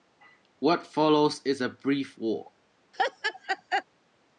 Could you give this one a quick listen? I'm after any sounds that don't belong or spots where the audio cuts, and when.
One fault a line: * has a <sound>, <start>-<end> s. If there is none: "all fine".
* has a laugh, 2.9-3.8 s